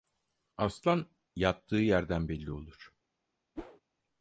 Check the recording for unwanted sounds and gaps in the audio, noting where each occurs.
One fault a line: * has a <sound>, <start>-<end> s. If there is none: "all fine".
* has a whoosh, 3.6-3.8 s